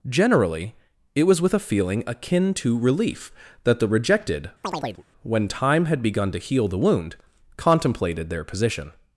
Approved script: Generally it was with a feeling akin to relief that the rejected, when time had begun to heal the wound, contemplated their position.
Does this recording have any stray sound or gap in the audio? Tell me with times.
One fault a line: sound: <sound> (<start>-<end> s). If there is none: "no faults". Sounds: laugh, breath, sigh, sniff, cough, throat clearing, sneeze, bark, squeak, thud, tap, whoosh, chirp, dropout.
sound: chirp (4.6-5.0 s)